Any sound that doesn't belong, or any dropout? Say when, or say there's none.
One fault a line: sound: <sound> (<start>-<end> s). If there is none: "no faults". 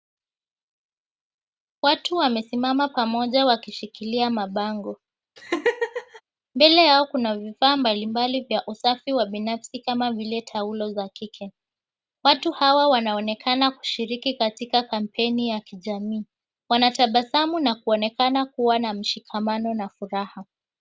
sound: laugh (5.4-6.2 s)